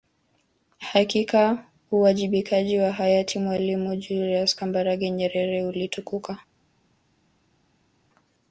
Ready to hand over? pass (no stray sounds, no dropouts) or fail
pass